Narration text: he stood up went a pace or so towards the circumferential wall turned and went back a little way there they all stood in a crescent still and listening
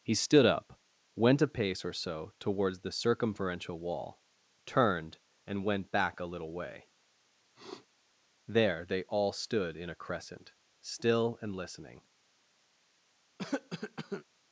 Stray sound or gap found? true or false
true